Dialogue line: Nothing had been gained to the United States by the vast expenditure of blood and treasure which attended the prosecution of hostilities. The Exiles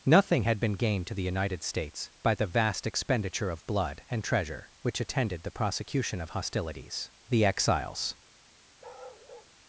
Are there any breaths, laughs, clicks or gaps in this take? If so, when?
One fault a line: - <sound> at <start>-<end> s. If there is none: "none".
- bark at 8.8-9.5 s